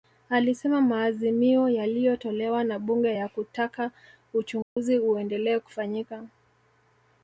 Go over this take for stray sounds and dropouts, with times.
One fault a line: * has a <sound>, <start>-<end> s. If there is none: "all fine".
* has a dropout, 4.6-4.8 s